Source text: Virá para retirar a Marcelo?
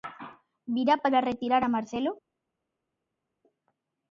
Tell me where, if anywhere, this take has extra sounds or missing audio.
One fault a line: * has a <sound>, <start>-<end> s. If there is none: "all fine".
all fine